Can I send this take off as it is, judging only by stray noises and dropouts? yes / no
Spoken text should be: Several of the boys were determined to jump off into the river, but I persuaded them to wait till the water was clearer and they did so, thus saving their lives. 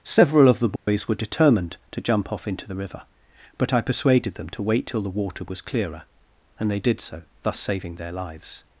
no